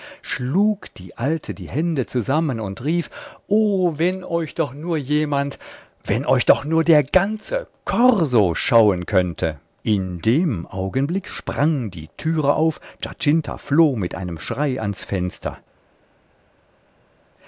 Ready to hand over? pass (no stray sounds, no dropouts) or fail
pass